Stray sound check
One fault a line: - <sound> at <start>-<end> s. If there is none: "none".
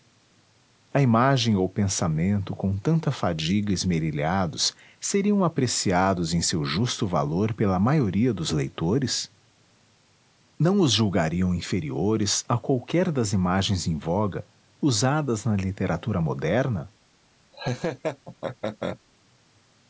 - laugh at 17.5-19.0 s